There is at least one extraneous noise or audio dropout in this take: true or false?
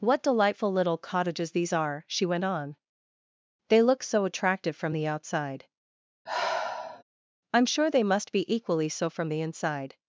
true